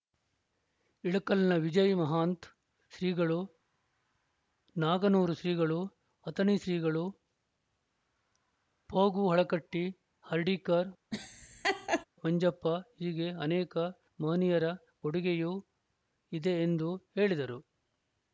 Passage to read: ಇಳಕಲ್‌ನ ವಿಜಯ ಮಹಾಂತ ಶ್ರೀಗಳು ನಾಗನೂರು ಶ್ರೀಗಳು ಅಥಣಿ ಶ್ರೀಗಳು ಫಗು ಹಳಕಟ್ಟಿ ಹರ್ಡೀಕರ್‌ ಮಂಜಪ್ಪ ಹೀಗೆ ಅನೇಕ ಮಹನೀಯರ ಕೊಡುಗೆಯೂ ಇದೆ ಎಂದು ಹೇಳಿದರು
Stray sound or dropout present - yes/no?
yes